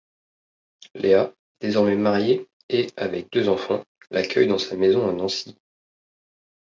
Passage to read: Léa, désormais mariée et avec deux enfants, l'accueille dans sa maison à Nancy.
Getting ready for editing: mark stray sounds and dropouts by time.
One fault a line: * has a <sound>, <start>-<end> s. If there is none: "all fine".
all fine